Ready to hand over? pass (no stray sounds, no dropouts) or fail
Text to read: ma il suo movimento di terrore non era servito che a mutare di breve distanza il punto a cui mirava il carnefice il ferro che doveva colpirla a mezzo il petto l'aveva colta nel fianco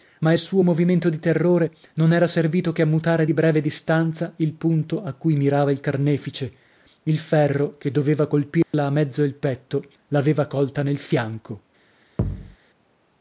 fail